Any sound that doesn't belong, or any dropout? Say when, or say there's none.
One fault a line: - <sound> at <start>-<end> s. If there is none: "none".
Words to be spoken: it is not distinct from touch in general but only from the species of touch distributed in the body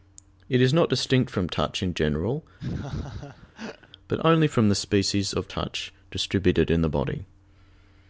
- laugh at 2.6-3.9 s